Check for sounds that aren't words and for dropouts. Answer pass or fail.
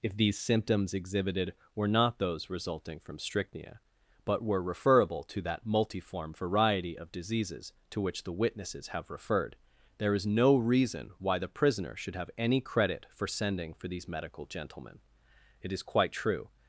pass